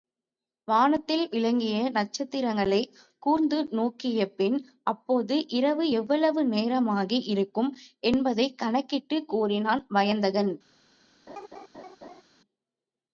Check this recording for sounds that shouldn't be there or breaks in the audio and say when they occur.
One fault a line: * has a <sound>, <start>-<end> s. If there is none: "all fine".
* has a laugh, 11.3-12.2 s